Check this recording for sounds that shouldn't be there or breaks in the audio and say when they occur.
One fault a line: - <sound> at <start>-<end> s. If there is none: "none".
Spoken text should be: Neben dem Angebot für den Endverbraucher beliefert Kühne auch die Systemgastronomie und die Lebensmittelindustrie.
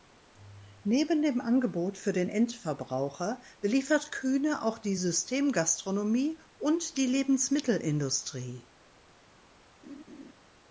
- laugh at 9.8-10.3 s